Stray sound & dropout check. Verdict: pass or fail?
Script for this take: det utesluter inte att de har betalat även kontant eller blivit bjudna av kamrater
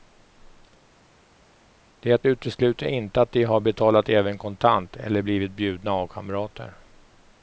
pass